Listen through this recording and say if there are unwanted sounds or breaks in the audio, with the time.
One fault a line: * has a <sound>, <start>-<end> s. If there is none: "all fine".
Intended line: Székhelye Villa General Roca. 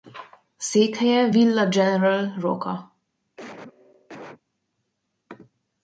* has a cough, 3.4-4.4 s